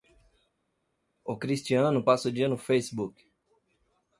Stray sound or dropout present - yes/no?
no